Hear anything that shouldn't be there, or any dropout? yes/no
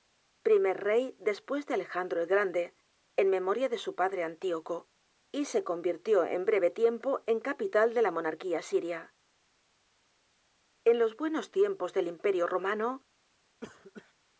yes